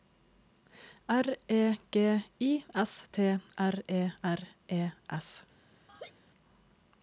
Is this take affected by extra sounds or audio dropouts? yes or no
yes